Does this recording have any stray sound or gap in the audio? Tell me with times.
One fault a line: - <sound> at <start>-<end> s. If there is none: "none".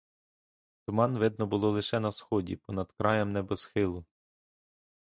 none